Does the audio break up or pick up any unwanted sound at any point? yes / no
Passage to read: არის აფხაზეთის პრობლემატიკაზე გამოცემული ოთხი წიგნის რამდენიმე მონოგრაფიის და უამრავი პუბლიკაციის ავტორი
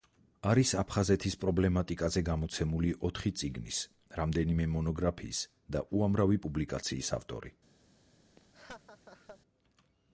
yes